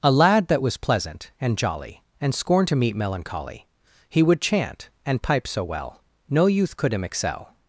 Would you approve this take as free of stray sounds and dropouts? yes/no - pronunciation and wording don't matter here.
yes